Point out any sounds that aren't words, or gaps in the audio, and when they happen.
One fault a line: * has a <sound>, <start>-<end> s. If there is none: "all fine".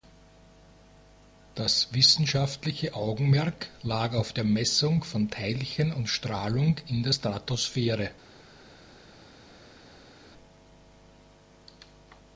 all fine